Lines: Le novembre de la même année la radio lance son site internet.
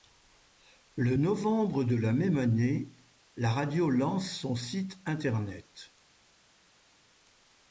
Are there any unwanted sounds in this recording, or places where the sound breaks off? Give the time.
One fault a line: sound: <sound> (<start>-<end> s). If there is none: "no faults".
no faults